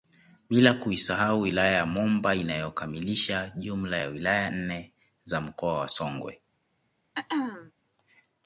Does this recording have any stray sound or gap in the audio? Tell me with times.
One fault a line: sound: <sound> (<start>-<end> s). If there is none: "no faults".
sound: throat clearing (7.1-7.7 s)